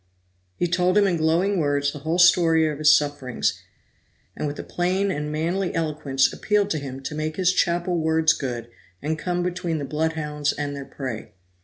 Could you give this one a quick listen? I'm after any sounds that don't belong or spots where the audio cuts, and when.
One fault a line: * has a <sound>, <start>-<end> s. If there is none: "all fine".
all fine